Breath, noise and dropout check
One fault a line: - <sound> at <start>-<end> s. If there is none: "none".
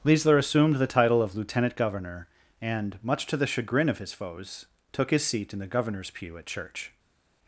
none